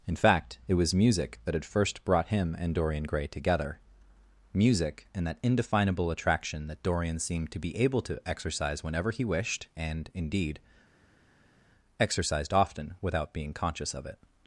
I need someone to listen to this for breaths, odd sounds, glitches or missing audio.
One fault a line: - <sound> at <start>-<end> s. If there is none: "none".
none